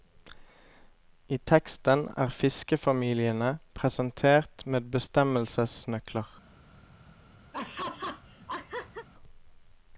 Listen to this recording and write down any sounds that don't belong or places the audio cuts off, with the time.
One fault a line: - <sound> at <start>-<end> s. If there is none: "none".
- laugh at 7.5-9.1 s